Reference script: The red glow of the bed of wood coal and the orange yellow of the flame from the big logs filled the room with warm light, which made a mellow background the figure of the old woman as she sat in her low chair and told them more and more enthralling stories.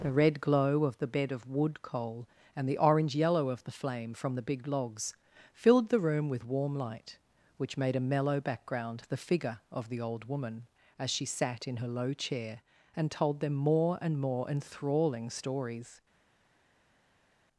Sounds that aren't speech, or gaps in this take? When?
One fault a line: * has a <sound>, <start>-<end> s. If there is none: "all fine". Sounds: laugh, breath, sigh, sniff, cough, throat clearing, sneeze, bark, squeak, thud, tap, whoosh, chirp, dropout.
all fine